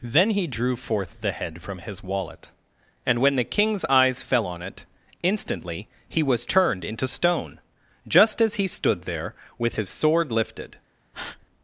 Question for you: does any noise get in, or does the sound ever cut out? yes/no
yes